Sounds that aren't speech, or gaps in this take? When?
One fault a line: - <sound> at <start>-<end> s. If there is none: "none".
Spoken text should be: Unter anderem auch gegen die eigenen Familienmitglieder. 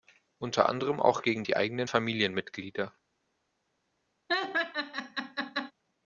- laugh at 4.3-5.7 s